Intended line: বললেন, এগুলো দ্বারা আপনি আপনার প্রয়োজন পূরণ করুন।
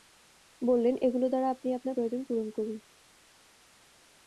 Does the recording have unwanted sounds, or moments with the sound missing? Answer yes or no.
no